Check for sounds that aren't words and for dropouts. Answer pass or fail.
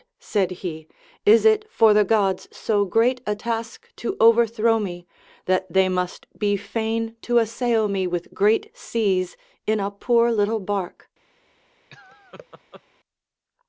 fail